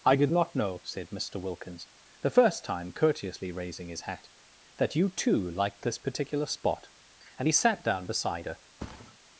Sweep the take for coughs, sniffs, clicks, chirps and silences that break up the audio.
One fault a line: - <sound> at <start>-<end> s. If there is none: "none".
- thud at 8.8-9.2 s